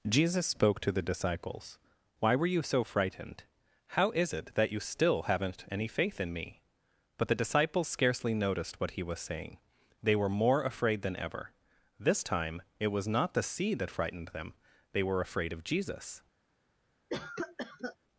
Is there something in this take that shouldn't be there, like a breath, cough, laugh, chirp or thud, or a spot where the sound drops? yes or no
yes